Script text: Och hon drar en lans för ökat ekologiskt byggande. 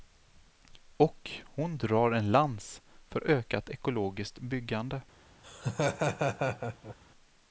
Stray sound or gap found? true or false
true